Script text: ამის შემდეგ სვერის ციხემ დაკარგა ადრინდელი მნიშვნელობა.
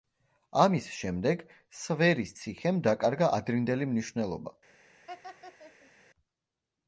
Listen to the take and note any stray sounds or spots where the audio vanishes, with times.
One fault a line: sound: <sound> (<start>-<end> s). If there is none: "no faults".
sound: laugh (5.1-5.9 s)